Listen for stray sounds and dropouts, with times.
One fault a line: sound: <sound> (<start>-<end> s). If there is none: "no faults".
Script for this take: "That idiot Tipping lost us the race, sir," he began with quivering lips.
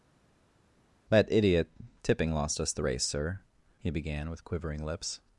no faults